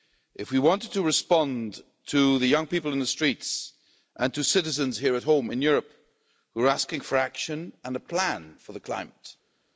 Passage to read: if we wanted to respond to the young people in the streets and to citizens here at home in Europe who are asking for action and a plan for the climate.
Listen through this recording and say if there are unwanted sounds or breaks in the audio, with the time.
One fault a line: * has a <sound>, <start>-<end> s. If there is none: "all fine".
all fine